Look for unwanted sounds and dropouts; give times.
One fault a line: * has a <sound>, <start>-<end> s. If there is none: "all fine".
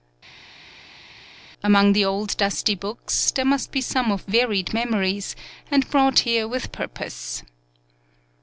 all fine